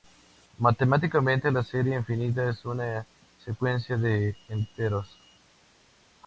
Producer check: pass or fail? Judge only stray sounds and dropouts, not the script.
pass